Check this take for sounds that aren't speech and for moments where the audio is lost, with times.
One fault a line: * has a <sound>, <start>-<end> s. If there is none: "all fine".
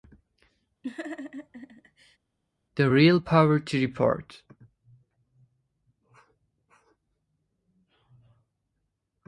* has a laugh, 0.8-2.2 s